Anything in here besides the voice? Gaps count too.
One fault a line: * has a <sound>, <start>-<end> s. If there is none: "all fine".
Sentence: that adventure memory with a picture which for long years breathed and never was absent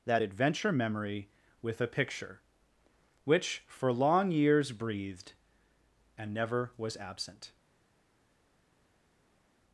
all fine